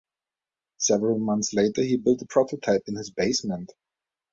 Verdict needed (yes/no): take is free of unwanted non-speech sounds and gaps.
yes